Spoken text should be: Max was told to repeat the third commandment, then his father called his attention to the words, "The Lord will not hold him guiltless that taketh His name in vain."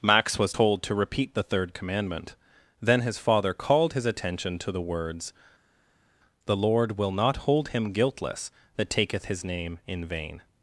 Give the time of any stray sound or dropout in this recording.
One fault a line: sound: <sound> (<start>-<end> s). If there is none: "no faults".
no faults